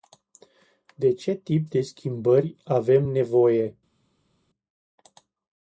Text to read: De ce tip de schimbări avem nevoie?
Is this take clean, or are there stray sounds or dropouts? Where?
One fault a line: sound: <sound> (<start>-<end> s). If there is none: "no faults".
no faults